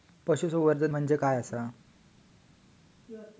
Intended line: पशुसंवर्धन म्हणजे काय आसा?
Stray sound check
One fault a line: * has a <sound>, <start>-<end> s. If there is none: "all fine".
all fine